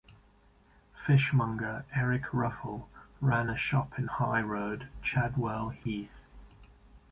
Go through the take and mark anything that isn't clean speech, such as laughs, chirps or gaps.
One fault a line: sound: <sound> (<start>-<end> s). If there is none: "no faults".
sound: dropout (5.8-5.9 s)